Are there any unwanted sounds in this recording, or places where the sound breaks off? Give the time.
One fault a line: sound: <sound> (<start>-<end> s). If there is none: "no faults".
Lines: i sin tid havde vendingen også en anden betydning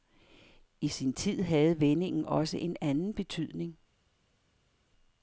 no faults